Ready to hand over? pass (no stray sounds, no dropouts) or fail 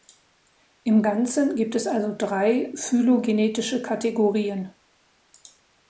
pass